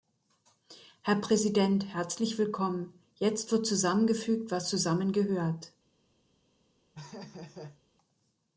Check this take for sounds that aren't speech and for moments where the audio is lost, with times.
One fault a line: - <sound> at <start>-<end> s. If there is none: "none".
- laugh at 6.9-7.8 s